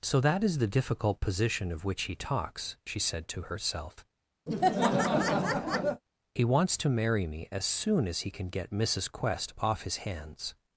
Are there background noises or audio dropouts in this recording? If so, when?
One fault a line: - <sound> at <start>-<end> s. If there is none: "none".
- laugh at 4.5-6.0 s